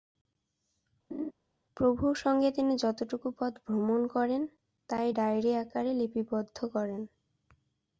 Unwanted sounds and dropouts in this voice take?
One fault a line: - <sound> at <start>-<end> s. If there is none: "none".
- laugh at 1.1-1.3 s